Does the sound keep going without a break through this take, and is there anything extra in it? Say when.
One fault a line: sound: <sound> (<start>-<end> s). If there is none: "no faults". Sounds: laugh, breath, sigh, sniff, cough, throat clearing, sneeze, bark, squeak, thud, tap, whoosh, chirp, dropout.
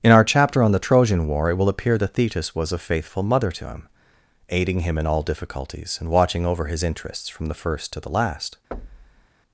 sound: thud (8.7-9.3 s)